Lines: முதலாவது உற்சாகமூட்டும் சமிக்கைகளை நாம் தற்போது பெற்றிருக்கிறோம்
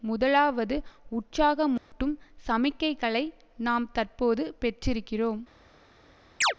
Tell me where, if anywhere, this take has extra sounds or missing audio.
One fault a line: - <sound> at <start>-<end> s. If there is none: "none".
- dropout at 1.8-1.9 s
- chirp at 6.4-6.5 s